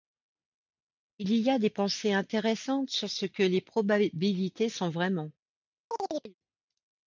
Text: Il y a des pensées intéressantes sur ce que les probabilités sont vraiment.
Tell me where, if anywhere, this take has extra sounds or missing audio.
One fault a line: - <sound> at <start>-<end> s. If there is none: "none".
- chirp at 5.9-6.3 s